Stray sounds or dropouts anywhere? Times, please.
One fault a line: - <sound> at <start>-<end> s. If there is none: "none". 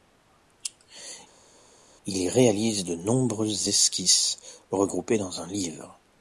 none